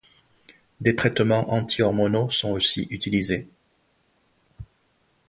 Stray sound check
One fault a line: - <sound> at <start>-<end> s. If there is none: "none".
none